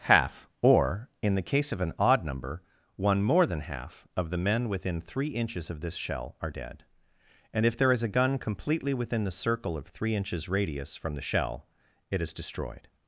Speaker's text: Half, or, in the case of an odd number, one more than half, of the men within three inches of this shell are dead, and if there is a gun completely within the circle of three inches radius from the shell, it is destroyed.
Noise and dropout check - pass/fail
pass